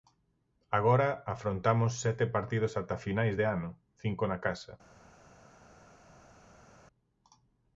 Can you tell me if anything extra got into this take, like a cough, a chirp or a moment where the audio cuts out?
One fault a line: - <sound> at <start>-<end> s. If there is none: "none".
none